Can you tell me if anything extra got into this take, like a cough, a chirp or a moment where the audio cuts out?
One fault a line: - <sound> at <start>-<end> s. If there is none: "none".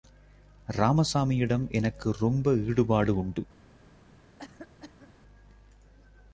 - cough at 4.4-5.1 s